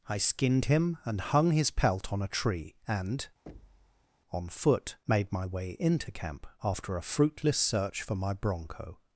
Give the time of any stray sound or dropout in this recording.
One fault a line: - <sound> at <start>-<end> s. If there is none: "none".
- thud at 3.5-4.1 s